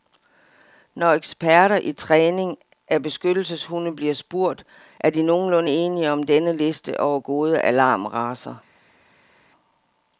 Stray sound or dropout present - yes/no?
no